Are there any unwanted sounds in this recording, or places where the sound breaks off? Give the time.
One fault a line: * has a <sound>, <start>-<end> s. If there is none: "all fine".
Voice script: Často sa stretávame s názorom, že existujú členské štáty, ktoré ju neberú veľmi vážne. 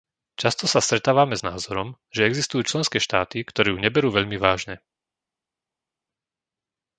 all fine